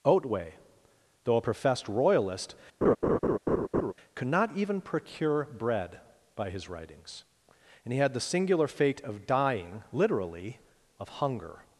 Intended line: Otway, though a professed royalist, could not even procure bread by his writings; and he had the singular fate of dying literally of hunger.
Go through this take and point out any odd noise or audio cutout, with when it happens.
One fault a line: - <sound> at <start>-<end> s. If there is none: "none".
- laugh at 2.8-3.9 s